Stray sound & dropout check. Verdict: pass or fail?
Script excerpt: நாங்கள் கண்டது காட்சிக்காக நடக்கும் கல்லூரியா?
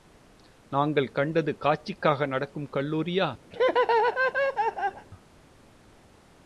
fail